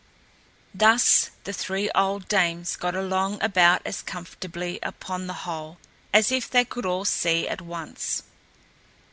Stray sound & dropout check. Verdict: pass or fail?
pass